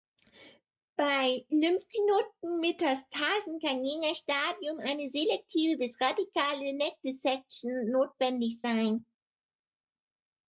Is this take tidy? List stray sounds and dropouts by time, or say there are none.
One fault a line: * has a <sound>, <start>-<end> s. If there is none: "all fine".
all fine